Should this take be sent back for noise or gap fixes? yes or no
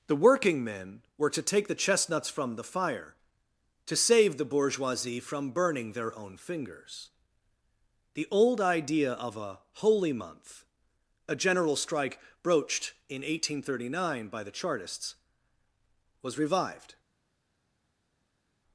no